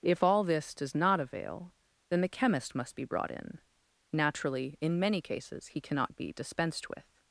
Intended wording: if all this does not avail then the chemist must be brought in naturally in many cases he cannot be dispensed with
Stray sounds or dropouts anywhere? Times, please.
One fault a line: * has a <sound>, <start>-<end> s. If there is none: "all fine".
all fine